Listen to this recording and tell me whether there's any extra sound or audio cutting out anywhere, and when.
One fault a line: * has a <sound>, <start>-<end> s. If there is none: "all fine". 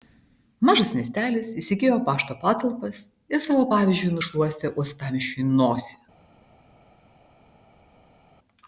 all fine